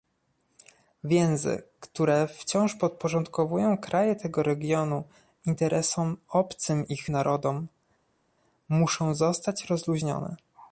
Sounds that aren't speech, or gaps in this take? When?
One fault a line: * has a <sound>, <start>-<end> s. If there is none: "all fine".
all fine